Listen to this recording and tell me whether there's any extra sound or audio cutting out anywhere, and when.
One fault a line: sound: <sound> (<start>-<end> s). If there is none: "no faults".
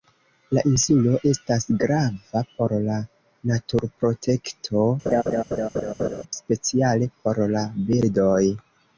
sound: laugh (5.1-6.2 s)